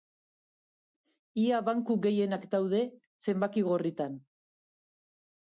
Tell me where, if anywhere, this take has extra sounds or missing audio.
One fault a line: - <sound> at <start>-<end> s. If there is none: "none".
none